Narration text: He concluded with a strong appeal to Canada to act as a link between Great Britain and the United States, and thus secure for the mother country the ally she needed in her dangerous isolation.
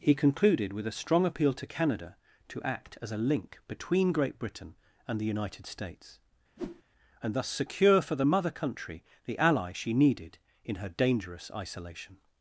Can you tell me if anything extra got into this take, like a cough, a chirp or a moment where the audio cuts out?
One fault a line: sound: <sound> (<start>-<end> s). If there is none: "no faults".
sound: whoosh (6.6-6.8 s)